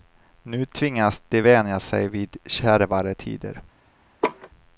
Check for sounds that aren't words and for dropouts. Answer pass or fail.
fail